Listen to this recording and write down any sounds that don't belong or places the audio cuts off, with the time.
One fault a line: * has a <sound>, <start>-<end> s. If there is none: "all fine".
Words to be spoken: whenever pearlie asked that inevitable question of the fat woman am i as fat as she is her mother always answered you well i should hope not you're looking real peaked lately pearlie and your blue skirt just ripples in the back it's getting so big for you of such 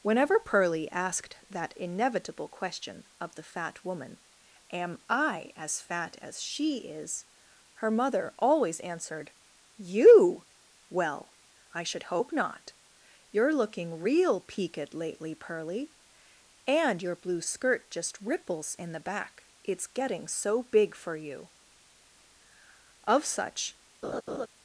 * has a laugh, 24.0-24.5 s